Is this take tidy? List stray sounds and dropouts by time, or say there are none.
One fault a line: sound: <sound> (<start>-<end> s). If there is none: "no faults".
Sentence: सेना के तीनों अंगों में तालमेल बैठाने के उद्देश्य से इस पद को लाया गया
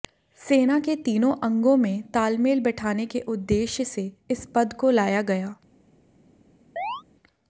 sound: chirp (6.8-7.0 s)